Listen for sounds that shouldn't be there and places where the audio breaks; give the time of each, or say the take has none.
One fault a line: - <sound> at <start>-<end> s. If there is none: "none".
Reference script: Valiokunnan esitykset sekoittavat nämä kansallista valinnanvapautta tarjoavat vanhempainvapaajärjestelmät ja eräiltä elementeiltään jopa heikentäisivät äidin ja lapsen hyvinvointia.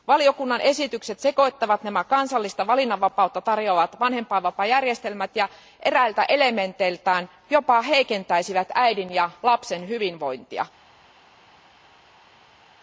none